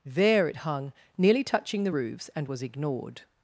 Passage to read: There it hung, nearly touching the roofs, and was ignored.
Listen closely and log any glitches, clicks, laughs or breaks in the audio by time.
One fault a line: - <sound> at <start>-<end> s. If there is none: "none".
none